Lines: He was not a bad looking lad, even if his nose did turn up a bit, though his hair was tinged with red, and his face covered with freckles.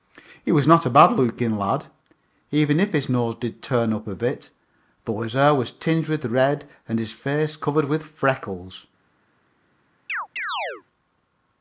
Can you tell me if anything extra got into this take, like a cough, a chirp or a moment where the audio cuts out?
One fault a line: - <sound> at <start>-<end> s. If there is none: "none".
- chirp at 10.1-10.8 s